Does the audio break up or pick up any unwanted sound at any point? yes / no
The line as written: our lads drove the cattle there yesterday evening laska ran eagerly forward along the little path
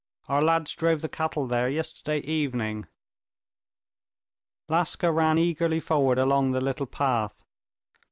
no